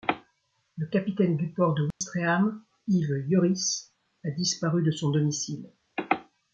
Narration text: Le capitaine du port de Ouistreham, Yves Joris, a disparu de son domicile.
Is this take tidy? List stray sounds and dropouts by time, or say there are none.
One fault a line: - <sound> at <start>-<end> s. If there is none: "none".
- dropout at 1.9-2.0 s